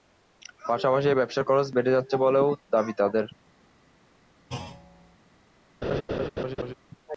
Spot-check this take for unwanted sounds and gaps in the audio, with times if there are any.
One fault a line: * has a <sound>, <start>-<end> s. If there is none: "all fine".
* has a thud, 4.5-5.2 s
* has a laugh, 5.8-6.7 s